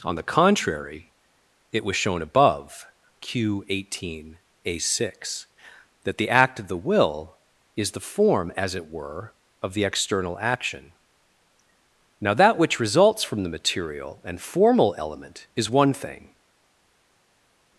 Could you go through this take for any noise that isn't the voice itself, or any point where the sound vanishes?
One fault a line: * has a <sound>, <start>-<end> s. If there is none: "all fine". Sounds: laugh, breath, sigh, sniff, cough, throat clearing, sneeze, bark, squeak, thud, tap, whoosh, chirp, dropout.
all fine